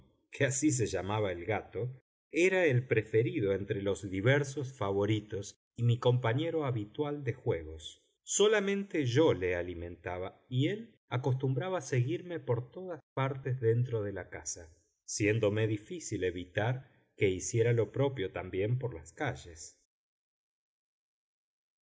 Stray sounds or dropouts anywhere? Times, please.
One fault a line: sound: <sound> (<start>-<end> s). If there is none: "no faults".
no faults